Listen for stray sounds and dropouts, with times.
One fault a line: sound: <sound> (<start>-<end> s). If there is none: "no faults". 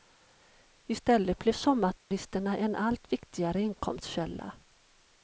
sound: dropout (2.0-2.1 s)